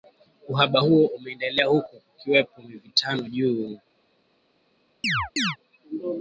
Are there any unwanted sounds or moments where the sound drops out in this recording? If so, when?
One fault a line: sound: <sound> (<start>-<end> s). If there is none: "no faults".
sound: chirp (5.0-5.6 s)